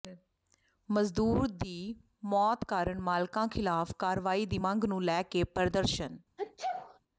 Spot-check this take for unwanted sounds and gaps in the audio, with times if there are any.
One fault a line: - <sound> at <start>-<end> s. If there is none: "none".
- sneeze at 6.4-7.0 s